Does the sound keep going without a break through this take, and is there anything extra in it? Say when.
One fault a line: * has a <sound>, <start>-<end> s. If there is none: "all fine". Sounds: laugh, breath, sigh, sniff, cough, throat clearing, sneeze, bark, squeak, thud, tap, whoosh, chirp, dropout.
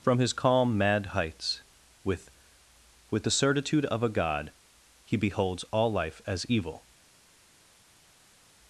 all fine